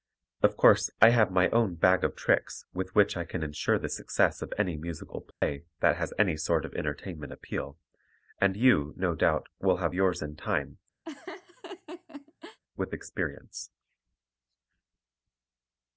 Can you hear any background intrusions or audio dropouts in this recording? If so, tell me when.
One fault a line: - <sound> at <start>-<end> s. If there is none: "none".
- dropout at 5.3-5.4 s
- laugh at 11.0-12.6 s